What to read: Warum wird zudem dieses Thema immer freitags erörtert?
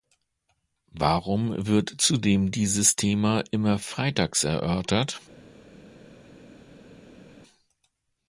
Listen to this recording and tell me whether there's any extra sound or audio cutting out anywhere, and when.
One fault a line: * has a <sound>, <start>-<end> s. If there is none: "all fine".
all fine